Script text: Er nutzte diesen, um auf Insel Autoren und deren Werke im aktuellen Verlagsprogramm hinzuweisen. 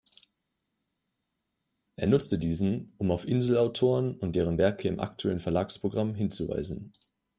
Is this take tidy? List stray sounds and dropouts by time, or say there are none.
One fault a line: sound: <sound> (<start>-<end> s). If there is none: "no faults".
no faults